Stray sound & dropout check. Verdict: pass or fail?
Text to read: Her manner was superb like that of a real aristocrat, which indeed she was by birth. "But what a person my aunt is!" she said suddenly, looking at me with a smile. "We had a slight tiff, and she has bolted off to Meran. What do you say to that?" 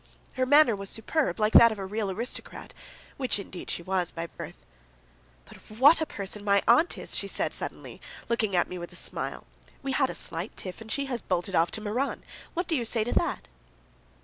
fail